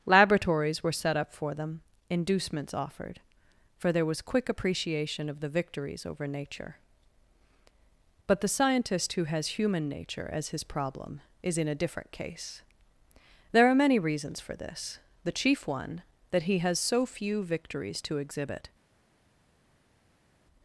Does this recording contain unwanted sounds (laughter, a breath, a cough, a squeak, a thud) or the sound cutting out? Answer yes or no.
no